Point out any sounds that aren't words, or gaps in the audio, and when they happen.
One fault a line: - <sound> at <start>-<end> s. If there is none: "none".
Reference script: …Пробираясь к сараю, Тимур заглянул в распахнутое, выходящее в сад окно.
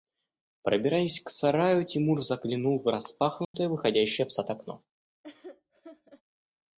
- dropout at 3.4-3.5 s
- laugh at 5.2-6.2 s